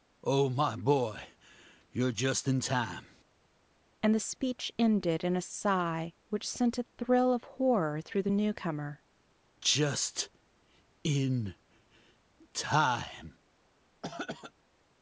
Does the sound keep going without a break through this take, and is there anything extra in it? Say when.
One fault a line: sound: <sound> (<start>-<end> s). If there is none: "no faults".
sound: throat clearing (14.0-14.5 s)